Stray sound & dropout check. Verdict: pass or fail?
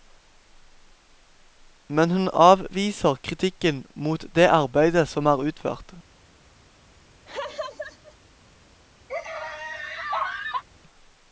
fail